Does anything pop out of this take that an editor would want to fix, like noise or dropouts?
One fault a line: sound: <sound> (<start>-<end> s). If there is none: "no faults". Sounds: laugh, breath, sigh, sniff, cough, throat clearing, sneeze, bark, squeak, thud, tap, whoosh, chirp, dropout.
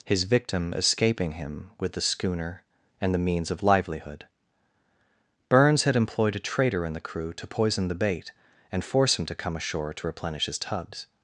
no faults